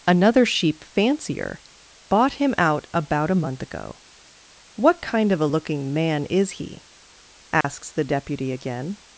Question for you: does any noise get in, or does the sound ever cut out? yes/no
yes